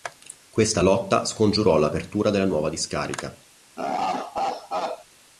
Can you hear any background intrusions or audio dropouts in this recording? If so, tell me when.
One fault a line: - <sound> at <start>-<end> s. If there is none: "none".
- laugh at 3.8-5.1 s